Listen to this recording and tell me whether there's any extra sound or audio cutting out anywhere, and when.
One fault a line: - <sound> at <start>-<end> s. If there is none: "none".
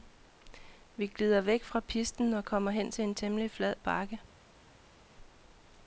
none